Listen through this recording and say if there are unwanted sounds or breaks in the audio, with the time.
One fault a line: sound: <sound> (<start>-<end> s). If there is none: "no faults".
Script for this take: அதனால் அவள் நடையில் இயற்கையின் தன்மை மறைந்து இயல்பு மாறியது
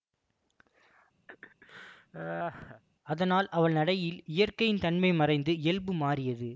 sound: laugh (1.3-2.8 s)